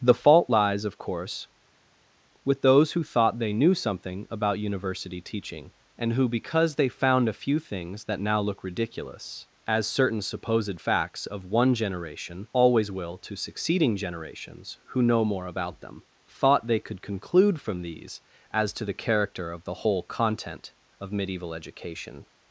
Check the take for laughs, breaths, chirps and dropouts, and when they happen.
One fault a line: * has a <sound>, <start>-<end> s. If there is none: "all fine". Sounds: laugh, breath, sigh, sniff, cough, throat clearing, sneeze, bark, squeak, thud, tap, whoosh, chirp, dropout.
all fine